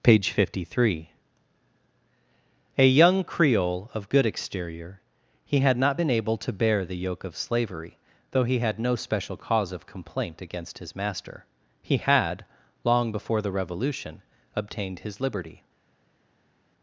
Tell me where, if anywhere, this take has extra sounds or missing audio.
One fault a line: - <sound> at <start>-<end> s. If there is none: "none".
none